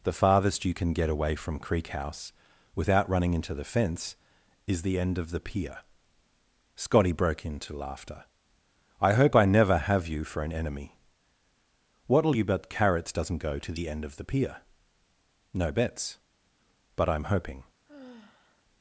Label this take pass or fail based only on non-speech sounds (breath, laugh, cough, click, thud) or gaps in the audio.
fail